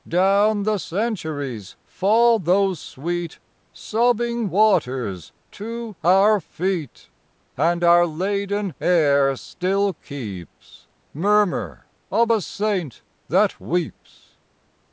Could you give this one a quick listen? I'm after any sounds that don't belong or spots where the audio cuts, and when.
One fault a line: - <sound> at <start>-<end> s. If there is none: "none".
none